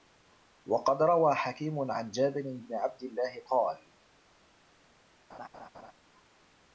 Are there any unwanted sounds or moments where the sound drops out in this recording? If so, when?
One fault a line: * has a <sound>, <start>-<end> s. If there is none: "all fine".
* has a laugh, 5.3-5.9 s